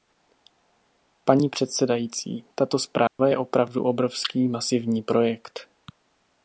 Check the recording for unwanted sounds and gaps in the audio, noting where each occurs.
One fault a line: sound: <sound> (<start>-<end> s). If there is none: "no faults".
sound: dropout (3.1-3.2 s)